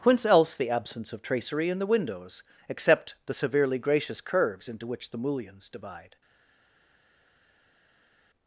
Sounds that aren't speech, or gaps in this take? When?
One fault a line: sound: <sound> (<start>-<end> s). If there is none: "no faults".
no faults